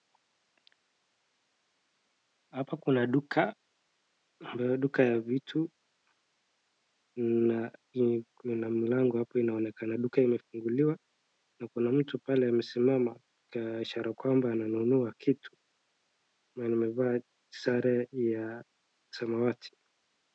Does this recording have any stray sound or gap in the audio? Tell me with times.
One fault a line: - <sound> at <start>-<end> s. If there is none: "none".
none